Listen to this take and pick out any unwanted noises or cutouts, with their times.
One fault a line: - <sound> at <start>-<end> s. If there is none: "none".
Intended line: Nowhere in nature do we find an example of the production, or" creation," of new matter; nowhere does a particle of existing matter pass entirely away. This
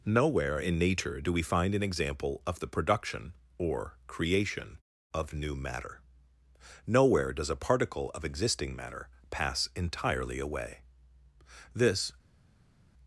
none